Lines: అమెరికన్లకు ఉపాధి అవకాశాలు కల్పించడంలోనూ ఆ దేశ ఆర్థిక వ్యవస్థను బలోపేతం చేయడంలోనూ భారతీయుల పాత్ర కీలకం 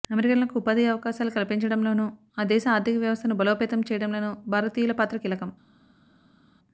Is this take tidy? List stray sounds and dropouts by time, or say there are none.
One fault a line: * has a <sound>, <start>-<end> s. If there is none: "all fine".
all fine